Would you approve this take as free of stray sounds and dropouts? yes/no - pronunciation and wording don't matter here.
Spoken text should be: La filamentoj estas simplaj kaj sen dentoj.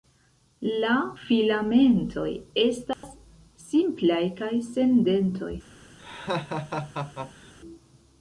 no